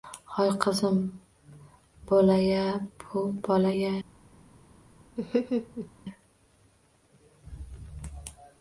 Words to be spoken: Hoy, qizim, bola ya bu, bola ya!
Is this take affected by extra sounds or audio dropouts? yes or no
yes